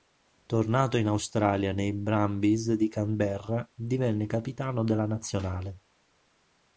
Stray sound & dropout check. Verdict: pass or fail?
pass